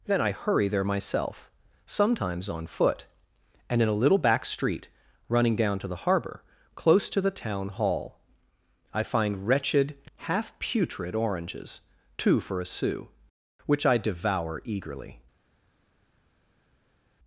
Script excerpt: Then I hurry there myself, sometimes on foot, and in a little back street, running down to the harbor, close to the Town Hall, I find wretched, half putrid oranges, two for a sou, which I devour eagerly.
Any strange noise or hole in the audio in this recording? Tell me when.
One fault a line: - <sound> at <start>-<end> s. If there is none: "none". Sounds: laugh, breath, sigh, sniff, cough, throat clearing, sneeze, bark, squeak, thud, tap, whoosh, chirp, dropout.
none